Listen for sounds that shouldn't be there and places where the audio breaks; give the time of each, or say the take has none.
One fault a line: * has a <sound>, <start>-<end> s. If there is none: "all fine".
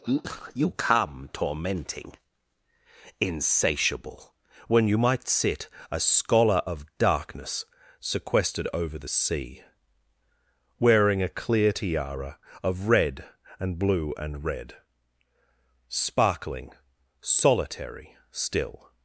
all fine